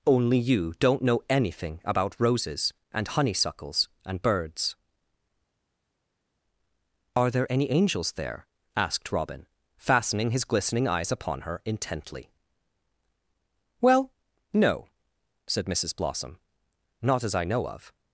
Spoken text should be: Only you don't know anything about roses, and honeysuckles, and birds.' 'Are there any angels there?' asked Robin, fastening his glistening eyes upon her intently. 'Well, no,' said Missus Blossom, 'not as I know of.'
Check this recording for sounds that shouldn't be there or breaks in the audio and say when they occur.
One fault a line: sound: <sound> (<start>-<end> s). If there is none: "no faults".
no faults